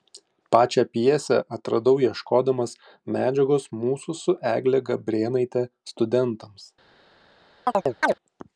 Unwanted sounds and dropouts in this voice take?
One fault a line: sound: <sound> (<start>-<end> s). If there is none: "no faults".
sound: chirp (7.7-8.1 s)